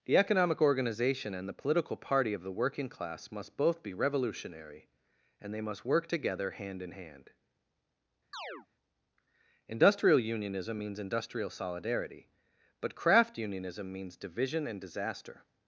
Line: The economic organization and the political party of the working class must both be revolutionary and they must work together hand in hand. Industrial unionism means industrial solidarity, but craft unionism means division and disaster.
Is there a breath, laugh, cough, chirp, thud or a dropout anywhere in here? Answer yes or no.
yes